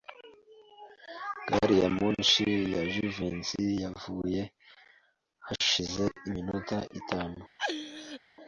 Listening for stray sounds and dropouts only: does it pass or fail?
fail